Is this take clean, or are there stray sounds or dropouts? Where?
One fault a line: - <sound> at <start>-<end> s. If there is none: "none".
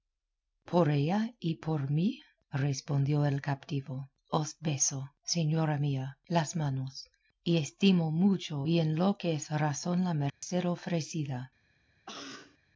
- dropout at 10.3-10.4 s
- cough at 12.1-12.6 s